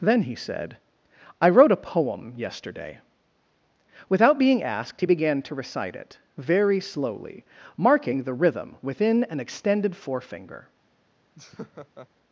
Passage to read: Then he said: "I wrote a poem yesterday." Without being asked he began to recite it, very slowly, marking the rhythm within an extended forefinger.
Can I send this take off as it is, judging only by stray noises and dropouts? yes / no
no